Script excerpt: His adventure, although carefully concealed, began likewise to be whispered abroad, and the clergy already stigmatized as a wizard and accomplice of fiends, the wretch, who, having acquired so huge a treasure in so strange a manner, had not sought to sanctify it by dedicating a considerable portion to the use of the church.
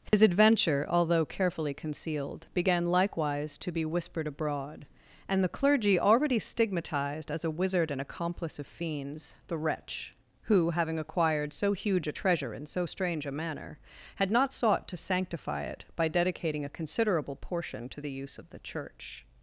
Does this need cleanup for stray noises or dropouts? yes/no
yes